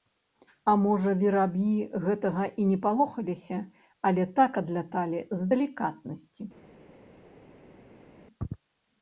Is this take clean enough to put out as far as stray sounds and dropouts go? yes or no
yes